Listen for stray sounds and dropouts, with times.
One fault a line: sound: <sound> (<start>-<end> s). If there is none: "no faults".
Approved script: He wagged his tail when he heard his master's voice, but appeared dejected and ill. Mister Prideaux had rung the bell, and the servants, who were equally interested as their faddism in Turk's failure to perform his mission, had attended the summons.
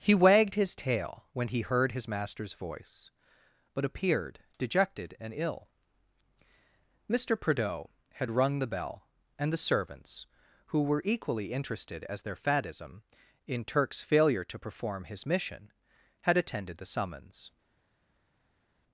no faults